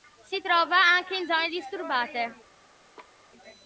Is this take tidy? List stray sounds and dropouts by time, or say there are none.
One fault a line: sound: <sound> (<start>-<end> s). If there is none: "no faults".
sound: laugh (3.0-3.2 s)